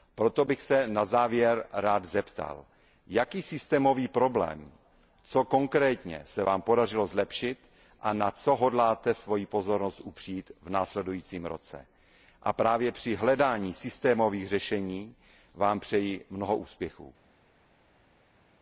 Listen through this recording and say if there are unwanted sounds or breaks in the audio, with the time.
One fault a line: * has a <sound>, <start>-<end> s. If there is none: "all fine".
all fine